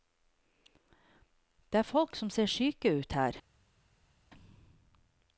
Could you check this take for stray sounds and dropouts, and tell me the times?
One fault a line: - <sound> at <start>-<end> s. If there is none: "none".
none